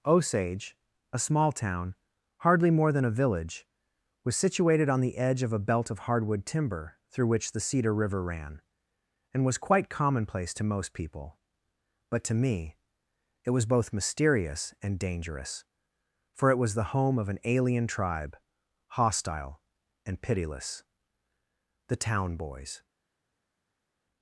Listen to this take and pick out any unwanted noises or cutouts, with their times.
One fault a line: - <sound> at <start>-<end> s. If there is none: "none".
none